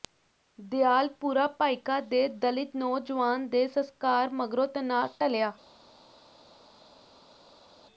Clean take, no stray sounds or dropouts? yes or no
yes